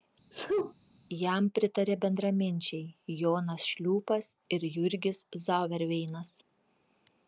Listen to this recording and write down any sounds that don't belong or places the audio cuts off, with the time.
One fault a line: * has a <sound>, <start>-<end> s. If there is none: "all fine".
* has a sneeze, 0.3-0.7 s